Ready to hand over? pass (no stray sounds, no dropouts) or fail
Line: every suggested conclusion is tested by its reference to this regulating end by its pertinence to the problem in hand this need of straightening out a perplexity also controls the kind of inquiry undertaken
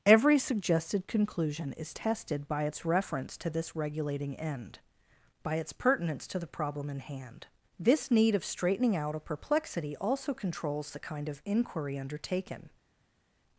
pass